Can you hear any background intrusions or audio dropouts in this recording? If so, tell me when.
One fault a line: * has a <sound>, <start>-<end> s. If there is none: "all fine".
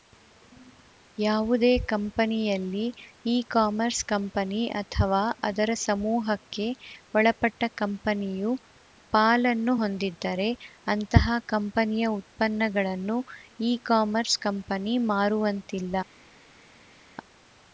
all fine